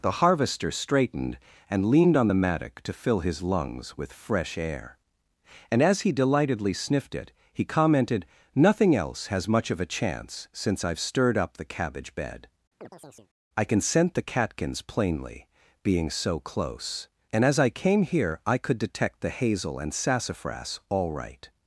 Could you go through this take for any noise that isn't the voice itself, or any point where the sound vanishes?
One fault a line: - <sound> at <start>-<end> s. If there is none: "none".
- chirp at 12.8-13.3 s